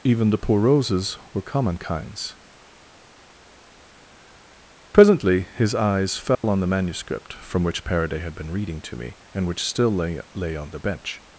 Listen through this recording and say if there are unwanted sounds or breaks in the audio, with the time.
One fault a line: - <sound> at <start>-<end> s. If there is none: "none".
- dropout at 6.3-6.4 s